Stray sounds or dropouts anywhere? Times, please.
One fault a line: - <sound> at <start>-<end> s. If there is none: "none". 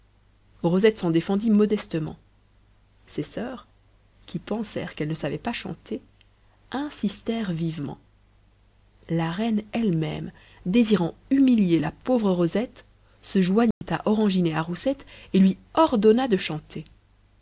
- dropout at 13.7-13.8 s